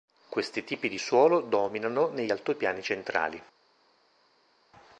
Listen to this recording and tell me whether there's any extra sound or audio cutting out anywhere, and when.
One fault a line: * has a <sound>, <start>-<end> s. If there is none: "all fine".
all fine